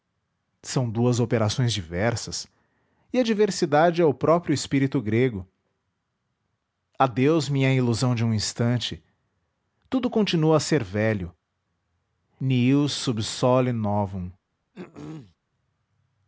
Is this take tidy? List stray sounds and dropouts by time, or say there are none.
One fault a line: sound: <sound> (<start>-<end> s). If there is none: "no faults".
sound: throat clearing (14.7-15.4 s)